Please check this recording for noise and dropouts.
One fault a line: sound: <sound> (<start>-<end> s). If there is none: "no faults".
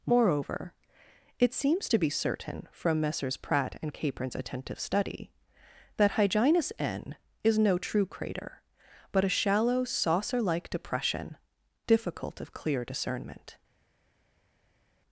no faults